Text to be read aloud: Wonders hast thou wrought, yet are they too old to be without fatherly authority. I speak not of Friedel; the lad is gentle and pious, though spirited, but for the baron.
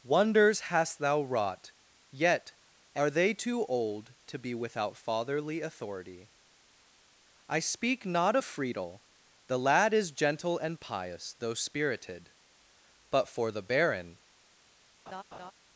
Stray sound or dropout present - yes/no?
yes